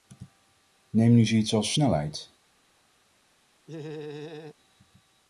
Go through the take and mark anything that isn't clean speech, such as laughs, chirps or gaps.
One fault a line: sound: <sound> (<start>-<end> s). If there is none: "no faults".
sound: laugh (3.7-4.5 s)